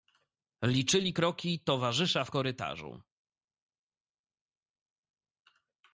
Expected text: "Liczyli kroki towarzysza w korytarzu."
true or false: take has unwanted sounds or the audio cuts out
false